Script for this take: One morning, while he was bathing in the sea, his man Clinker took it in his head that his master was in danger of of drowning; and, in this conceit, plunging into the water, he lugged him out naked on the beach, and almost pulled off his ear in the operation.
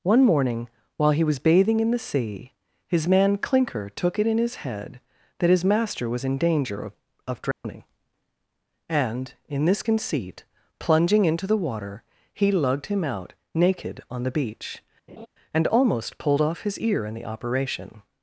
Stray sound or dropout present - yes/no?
yes